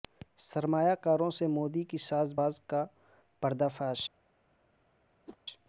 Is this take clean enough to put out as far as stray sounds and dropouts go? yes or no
no